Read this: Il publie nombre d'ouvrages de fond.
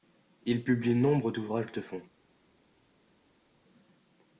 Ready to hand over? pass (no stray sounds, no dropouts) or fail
pass